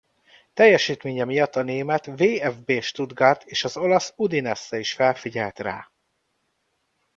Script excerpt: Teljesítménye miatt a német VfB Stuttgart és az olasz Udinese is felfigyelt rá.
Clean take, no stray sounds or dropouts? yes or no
yes